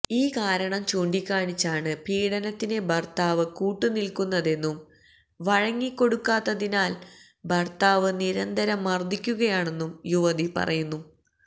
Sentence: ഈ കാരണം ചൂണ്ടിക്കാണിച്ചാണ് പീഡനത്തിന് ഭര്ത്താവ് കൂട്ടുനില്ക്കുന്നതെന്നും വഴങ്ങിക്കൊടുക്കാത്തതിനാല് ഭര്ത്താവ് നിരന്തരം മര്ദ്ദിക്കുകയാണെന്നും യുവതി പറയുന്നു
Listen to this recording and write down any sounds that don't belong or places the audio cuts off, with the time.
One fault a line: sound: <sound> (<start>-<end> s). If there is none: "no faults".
no faults